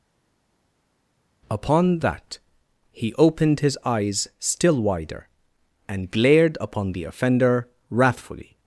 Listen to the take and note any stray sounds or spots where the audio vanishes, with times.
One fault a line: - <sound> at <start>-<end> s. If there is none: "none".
none